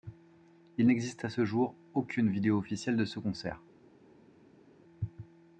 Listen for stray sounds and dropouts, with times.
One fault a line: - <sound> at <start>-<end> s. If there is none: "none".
none